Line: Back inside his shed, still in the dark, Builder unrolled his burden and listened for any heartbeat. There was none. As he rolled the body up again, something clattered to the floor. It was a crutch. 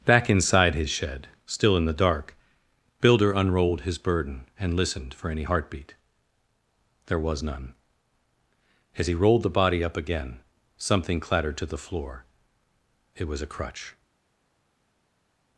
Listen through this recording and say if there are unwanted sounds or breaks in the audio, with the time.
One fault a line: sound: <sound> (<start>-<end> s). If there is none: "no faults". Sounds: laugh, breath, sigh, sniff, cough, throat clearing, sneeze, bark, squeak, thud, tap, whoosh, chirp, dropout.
no faults